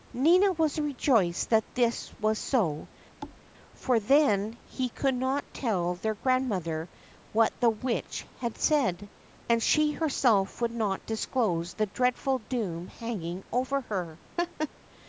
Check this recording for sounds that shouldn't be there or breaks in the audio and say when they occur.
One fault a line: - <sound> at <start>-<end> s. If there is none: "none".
- thud at 3.2-3.4 s
- laugh at 14.4-14.7 s